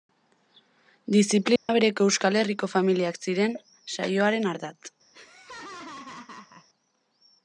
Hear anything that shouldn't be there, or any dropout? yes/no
yes